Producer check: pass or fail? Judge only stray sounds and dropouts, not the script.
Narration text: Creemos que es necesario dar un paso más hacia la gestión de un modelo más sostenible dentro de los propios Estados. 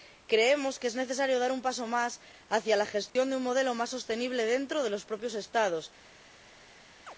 fail